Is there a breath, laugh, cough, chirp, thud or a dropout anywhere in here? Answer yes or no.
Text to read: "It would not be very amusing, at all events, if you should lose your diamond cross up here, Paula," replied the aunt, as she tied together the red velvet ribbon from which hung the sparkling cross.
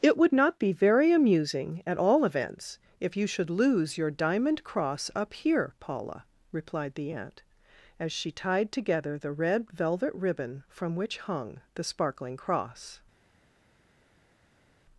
no